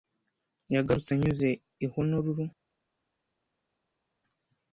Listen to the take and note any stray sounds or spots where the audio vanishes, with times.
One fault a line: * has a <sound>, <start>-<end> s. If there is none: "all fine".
all fine